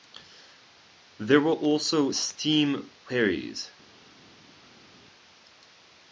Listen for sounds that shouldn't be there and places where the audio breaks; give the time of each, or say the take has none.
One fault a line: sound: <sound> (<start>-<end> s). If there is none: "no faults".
no faults